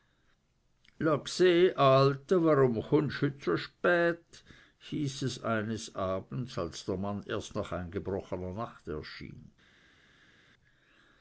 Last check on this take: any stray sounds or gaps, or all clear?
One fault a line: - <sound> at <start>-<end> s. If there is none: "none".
none